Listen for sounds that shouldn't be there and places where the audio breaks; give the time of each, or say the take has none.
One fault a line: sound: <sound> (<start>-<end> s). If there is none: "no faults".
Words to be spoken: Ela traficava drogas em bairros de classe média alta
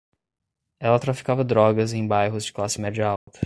sound: dropout (3.2-3.3 s)